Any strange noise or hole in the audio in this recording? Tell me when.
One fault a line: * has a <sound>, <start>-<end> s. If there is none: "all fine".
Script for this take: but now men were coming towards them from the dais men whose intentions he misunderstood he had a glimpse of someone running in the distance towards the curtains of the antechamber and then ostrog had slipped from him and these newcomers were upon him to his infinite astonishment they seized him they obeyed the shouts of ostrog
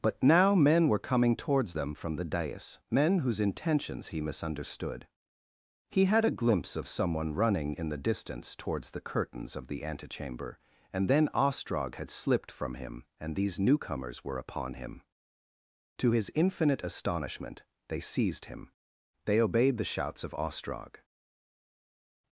all fine